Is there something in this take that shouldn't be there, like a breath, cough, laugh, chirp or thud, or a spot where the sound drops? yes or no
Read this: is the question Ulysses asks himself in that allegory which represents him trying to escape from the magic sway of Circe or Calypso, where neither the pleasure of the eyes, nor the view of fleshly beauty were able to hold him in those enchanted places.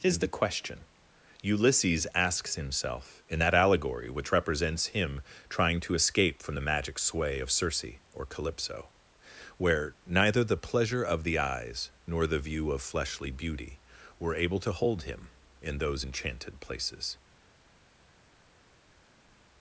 no